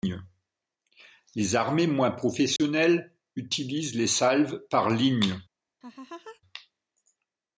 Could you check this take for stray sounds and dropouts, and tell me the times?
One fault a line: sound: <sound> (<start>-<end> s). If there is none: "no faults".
sound: dropout (2.6-2.6 s)
sound: laugh (5.8-6.4 s)